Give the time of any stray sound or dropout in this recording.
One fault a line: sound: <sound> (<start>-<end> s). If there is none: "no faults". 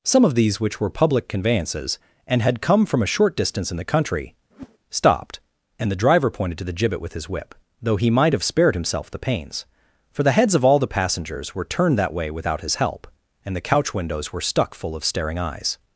sound: whoosh (4.5-4.8 s)